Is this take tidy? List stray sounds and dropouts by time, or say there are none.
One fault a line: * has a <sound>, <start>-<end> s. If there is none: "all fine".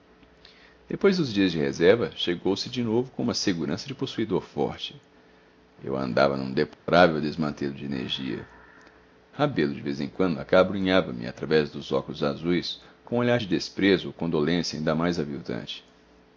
* has a dropout, 6.7-6.9 s